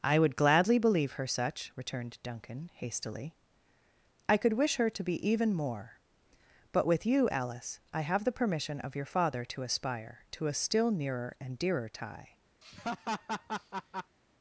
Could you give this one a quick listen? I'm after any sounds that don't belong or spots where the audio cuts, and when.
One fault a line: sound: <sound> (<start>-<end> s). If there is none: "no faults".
sound: laugh (12.6-14.2 s)